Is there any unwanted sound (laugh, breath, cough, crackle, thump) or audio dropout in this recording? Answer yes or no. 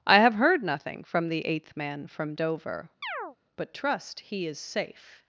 yes